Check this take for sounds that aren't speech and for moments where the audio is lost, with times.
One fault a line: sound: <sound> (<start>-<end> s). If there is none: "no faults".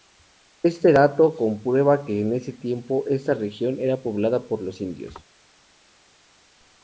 no faults